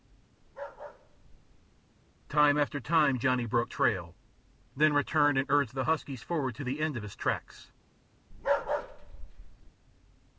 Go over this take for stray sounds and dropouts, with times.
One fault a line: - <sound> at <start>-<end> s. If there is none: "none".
- bark at 0.4-1.8 s
- bark at 8.3-9.7 s